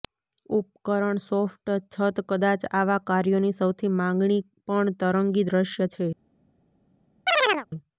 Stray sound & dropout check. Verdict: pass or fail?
fail